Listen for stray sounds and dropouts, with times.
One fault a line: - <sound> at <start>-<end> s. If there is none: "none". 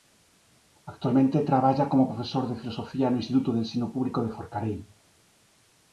none